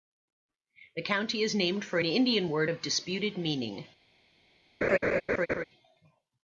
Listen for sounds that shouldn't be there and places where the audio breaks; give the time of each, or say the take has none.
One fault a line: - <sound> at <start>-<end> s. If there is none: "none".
- laugh at 4.8-5.6 s